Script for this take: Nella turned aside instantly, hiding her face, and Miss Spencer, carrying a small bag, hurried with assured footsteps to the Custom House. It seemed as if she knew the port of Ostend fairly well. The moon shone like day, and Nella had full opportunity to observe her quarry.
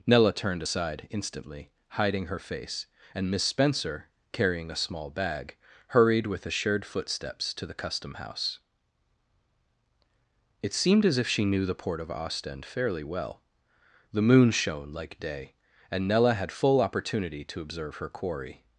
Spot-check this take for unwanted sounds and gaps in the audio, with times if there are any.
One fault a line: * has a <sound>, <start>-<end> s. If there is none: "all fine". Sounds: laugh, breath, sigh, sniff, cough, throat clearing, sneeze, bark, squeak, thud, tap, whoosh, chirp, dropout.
all fine